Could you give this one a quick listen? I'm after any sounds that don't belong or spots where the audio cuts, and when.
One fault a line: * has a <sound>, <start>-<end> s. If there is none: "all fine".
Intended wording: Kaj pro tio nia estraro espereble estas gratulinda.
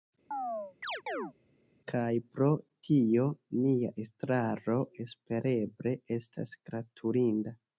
* has a chirp, 0.3-1.3 s